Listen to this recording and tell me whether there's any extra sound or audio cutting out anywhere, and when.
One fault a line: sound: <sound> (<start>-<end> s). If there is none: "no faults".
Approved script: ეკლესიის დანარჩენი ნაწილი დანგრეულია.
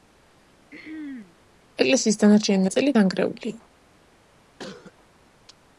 sound: throat clearing (0.7-1.4 s)
sound: cough (4.6-4.9 s)